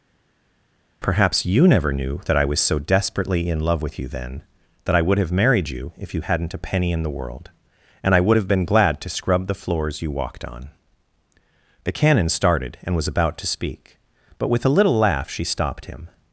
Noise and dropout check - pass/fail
pass